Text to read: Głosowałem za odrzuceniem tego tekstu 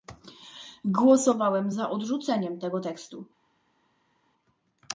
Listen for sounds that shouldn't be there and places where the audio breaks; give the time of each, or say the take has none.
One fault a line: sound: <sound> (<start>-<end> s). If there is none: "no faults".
no faults